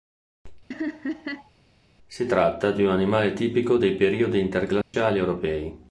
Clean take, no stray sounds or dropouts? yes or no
no